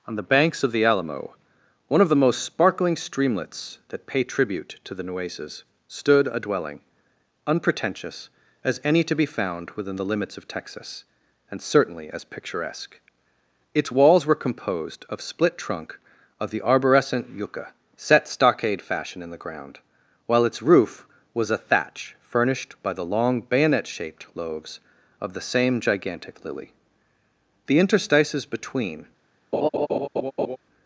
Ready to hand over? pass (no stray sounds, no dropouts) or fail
fail